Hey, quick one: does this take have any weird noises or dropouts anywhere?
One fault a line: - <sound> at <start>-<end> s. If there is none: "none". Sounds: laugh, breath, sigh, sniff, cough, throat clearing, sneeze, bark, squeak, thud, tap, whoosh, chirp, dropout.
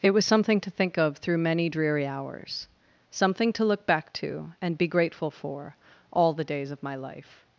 none